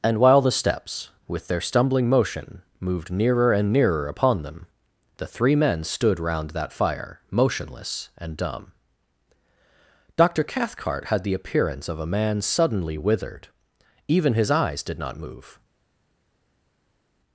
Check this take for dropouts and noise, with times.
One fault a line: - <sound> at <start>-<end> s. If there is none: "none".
none